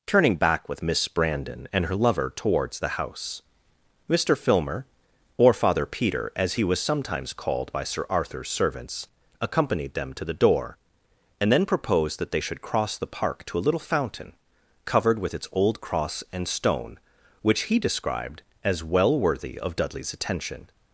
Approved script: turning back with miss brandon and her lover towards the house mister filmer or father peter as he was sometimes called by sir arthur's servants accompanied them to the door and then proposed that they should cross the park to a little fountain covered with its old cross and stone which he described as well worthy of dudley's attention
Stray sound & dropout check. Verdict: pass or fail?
pass